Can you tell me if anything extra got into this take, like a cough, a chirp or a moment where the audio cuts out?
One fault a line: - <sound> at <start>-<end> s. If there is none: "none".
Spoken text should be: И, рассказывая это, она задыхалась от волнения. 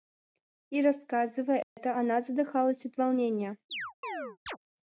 - dropout at 1.6-1.8 s
- chirp at 3.7-4.6 s